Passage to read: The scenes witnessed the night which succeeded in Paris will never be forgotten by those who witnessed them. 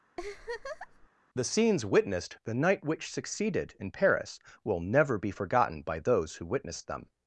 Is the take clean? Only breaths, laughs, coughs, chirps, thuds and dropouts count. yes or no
no